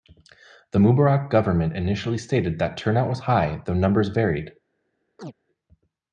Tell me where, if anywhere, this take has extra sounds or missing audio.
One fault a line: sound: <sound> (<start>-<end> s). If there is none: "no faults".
sound: chirp (5.2-5.3 s)